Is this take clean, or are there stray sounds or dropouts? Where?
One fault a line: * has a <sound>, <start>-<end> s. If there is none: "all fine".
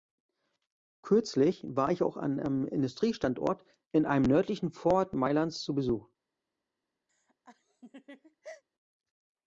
* has a laugh, 7.1-8.6 s